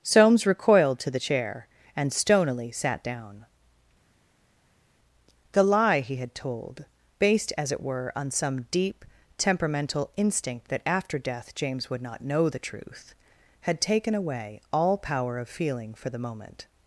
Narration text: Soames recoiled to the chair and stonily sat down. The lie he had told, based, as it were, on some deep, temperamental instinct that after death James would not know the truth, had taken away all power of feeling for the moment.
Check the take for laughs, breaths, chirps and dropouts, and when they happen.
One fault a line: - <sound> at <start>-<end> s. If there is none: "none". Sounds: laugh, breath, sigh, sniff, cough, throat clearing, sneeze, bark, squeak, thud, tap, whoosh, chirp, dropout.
none